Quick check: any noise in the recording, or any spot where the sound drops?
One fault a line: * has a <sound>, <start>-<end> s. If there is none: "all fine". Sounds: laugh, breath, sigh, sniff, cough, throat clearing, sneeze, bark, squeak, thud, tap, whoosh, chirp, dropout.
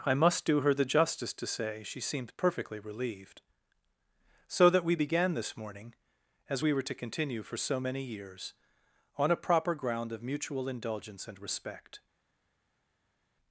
all fine